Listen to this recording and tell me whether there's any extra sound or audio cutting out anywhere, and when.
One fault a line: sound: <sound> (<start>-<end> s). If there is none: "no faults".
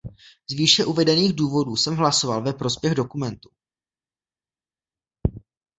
no faults